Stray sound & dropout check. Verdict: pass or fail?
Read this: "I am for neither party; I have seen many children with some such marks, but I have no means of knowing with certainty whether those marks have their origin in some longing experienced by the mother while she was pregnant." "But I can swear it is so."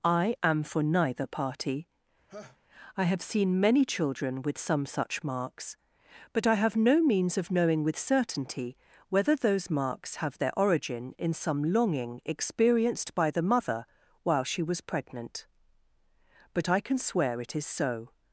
fail